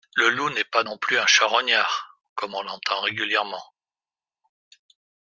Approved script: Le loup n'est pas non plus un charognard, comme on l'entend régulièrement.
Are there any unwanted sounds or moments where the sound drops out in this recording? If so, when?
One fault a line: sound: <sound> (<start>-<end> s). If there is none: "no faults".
no faults